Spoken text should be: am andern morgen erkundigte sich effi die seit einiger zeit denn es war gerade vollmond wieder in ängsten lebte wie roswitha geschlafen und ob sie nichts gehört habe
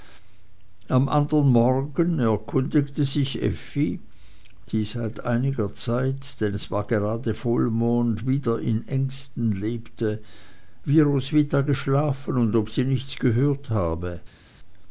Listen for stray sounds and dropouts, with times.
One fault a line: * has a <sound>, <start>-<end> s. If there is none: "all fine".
all fine